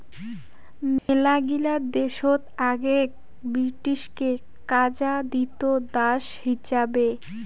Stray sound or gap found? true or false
true